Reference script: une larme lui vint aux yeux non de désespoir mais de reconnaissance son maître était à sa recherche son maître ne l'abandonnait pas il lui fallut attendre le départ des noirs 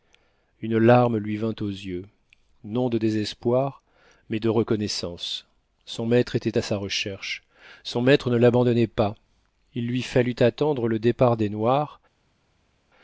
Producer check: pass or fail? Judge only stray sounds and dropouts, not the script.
pass